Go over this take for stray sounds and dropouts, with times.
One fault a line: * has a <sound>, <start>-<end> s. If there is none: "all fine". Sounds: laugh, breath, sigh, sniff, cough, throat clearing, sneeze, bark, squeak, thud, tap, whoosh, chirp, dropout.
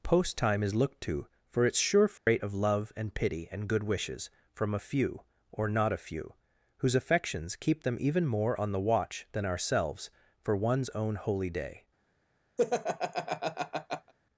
* has a dropout, 2.2-2.3 s
* has a laugh, 12.6-14.1 s